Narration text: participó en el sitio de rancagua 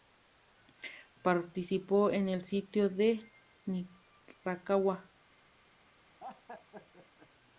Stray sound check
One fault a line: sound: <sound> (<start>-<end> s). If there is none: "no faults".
sound: laugh (6.2-7.3 s)